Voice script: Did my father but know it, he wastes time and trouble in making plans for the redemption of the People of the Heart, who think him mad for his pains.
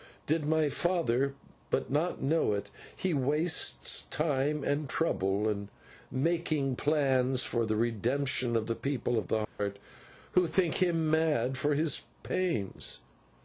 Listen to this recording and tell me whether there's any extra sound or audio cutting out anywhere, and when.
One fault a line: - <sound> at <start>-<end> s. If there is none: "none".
- dropout at 9.4-9.6 s